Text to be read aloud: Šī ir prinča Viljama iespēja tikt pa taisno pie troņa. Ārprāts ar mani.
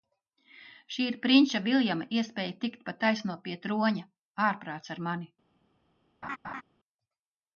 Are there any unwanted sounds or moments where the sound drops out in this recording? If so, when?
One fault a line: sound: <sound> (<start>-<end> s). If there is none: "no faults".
sound: laugh (6.2-6.6 s)